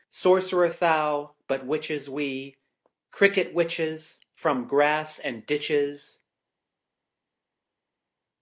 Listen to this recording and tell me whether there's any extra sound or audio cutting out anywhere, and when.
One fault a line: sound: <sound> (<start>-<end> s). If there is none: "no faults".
no faults